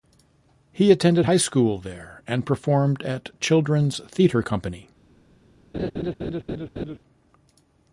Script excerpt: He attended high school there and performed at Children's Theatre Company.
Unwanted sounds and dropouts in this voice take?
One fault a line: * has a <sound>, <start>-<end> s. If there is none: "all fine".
* has a laugh, 5.7-7.0 s